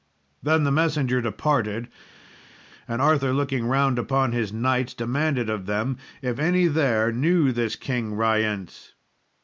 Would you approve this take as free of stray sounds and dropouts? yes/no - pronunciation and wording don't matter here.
yes